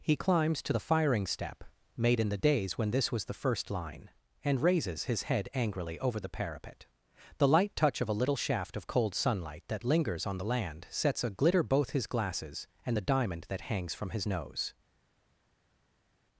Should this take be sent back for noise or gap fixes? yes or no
no